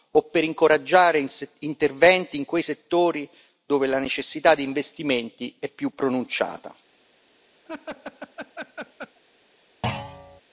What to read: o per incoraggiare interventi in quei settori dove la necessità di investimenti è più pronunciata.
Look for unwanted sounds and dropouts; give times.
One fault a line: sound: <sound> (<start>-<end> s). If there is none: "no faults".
sound: laugh (7.6-9.2 s)
sound: thud (9.8-10.4 s)